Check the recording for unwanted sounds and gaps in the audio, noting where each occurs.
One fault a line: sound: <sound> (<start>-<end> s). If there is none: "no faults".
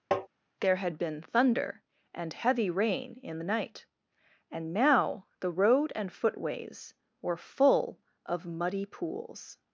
sound: tap (0.1-0.3 s)